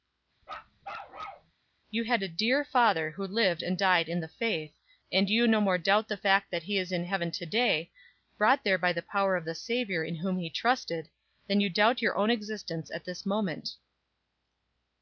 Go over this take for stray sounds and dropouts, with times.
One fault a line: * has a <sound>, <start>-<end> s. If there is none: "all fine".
* has a bark, 0.4-1.5 s